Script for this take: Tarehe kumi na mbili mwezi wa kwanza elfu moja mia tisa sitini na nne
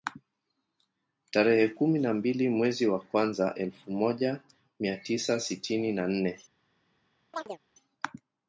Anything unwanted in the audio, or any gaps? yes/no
yes